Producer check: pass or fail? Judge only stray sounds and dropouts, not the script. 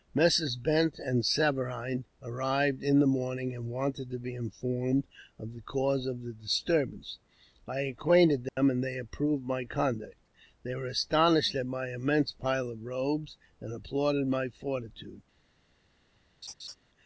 fail